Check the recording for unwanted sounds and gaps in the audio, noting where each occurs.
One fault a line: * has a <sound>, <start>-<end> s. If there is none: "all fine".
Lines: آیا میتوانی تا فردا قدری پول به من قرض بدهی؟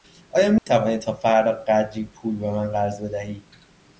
* has a dropout, 0.6-0.7 s